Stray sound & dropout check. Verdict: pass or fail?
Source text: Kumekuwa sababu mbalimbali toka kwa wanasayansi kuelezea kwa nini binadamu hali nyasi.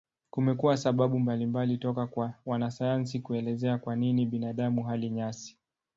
pass